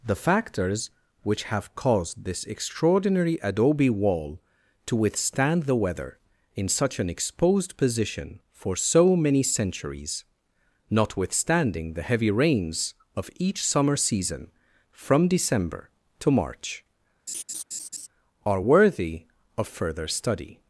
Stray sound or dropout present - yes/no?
yes